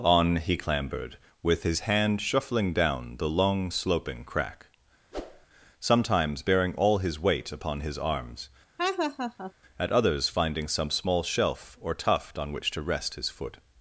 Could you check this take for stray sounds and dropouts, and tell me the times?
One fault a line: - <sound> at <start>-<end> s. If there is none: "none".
- whoosh at 5.1-5.5 s
- laugh at 8.8-9.5 s